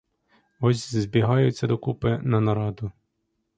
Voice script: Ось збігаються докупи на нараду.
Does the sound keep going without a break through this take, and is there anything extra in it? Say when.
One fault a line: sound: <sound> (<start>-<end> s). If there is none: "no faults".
no faults